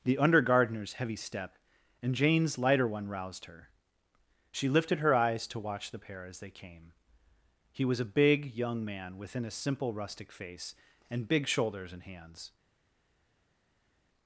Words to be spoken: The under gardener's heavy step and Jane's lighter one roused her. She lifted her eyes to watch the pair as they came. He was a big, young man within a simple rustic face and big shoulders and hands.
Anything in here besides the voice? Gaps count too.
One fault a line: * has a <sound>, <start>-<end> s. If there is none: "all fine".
all fine